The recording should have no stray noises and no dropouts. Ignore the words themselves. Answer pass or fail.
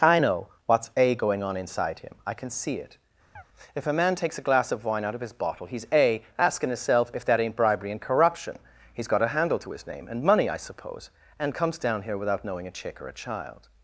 fail